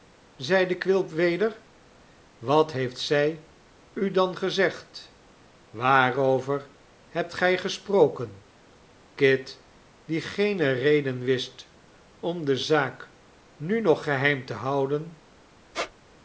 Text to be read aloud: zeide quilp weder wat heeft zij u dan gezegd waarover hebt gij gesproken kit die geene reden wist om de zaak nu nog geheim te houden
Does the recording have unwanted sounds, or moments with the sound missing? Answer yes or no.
yes